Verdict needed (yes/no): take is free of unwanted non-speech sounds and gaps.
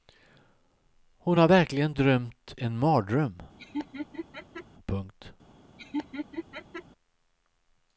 no